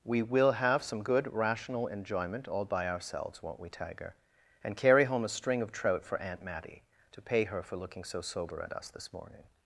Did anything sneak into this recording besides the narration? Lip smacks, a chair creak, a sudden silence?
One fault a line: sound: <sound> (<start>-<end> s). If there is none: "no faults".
no faults